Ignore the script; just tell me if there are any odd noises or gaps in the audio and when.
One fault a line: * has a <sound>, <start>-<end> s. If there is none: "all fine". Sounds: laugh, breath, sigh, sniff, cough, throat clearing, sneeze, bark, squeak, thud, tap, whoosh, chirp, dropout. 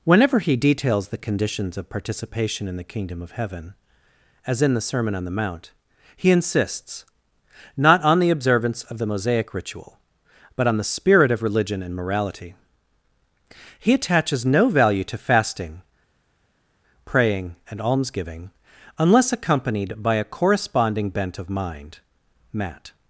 all fine